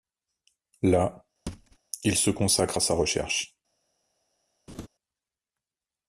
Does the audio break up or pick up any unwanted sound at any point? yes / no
yes